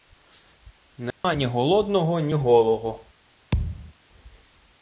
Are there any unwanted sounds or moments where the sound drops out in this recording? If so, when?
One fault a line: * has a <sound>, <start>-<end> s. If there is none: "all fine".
* has a dropout, 1.1-1.2 s
* has a thud, 3.5-3.9 s